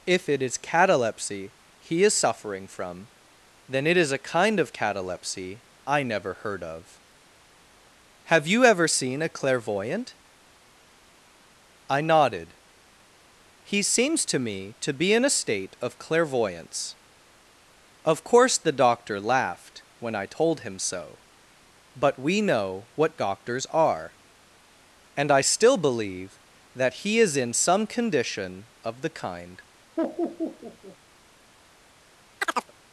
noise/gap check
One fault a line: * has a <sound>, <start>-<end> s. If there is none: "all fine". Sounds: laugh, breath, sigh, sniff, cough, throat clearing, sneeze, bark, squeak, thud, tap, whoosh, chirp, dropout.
* has a laugh, 30.0-31.0 s
* has a chirp, 32.4-32.7 s